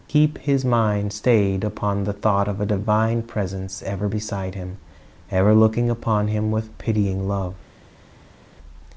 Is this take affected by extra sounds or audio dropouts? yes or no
no